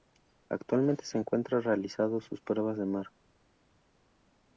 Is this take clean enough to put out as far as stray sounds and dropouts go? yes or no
yes